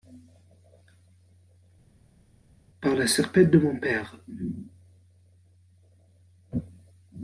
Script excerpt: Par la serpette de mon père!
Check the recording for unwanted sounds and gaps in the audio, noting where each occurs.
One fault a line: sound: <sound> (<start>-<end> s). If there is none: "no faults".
no faults